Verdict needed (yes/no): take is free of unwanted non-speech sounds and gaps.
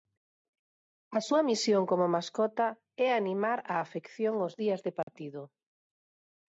no